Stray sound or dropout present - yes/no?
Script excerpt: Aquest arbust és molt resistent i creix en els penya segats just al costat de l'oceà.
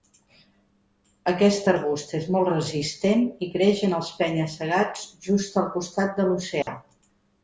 yes